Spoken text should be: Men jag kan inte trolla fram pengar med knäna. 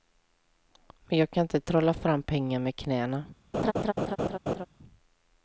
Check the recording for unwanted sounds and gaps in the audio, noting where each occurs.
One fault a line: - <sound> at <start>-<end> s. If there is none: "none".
- laugh at 3.5-4.7 s